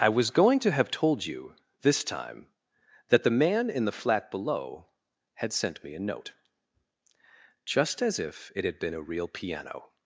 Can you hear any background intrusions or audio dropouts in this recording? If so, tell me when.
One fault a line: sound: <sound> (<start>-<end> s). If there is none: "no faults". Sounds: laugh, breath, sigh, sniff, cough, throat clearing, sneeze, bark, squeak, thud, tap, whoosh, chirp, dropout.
no faults